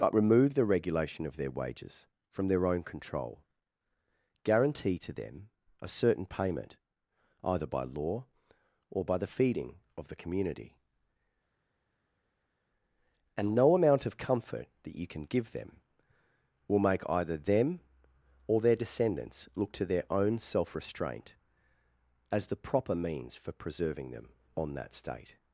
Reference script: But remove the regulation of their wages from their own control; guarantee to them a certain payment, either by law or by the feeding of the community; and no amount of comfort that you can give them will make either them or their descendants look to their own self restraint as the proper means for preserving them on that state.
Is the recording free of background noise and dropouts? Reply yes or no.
yes